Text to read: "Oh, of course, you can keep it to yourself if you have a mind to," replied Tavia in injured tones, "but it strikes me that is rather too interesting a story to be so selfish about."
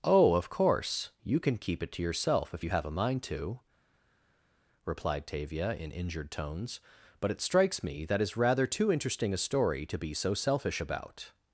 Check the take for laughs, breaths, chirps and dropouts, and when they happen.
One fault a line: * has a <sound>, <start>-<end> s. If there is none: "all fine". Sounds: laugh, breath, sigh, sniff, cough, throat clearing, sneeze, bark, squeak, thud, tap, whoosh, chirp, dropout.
all fine